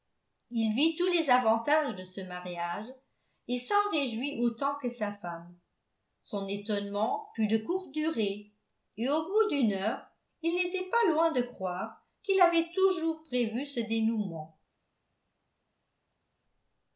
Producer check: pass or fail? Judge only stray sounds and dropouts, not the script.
pass